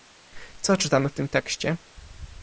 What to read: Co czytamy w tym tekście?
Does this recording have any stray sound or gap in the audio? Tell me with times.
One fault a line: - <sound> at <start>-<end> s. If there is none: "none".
none